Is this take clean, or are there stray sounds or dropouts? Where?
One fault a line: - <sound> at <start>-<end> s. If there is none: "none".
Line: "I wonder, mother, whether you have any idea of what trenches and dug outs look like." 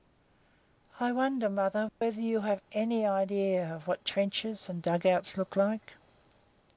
- dropout at 1.9-2.0 s